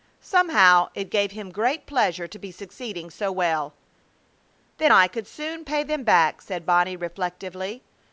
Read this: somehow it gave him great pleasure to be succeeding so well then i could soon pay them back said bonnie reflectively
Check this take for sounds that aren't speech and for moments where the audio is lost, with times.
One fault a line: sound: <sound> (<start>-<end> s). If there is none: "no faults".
no faults